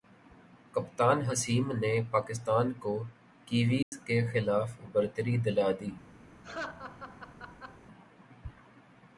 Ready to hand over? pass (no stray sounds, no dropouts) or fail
fail